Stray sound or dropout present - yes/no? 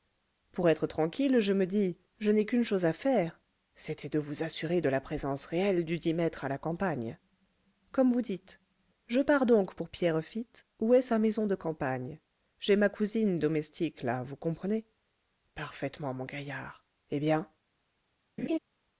yes